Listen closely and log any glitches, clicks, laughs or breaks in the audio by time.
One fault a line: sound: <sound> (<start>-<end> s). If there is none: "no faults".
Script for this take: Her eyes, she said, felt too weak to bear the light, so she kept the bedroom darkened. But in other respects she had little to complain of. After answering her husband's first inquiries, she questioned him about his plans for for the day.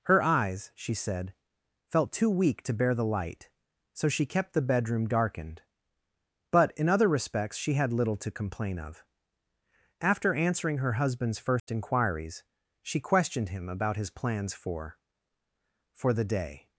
sound: dropout (11.6-11.7 s)